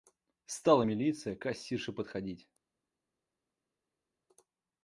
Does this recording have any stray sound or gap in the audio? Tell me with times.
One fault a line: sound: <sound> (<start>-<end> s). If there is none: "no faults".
no faults